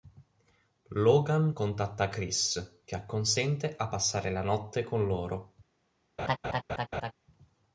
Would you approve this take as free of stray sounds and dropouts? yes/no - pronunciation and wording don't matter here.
no